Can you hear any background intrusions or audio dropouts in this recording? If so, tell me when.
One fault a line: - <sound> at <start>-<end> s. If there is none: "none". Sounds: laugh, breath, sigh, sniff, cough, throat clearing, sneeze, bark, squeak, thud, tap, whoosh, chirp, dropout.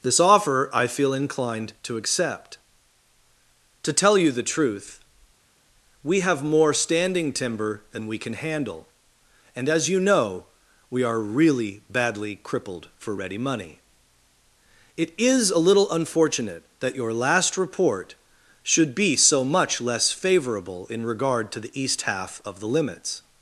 none